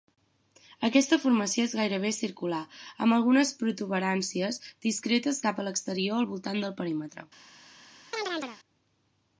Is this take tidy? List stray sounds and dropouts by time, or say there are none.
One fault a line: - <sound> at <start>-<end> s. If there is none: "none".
- chirp at 8.1-8.6 s